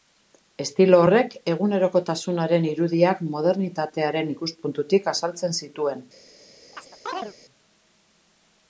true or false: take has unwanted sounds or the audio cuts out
true